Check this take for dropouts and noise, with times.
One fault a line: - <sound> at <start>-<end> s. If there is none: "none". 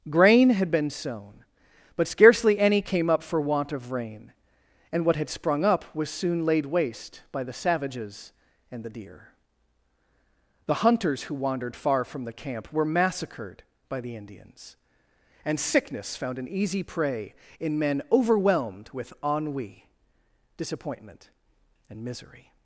none